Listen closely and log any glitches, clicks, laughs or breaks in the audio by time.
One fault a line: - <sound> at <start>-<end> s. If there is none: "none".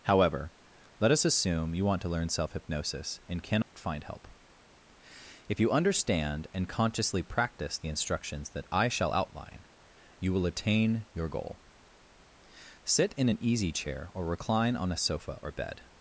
- dropout at 3.6-3.8 s